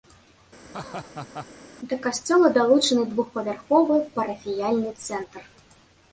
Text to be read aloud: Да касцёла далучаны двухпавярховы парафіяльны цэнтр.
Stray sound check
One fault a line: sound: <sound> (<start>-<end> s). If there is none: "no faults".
sound: laugh (0.6-1.5 s)